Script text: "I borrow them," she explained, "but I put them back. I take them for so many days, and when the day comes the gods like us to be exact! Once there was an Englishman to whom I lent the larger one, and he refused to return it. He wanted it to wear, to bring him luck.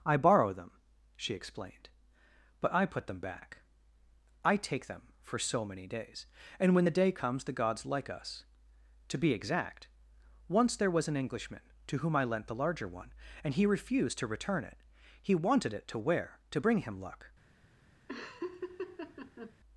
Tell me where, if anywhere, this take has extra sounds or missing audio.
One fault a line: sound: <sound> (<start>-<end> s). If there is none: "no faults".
sound: laugh (18.1-19.5 s)